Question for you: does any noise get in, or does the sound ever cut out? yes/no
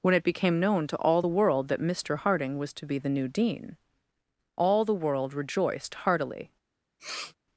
yes